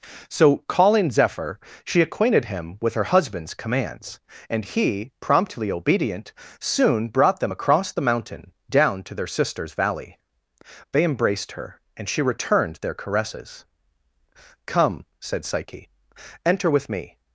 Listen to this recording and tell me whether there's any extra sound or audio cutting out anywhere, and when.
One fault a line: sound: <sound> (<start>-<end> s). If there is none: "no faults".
no faults